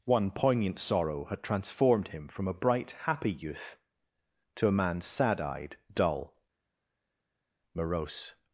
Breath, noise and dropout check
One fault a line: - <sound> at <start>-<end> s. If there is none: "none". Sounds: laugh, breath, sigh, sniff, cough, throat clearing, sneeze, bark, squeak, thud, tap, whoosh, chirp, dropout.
none